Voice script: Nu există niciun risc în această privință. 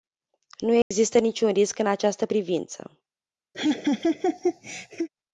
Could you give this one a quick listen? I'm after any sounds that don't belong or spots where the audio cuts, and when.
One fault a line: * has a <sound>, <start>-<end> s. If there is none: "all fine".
* has a dropout, 0.8-0.9 s
* has a laugh, 3.5-5.1 s